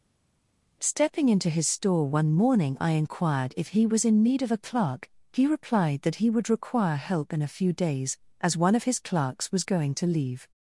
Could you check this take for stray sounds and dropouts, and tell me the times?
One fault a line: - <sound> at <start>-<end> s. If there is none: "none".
none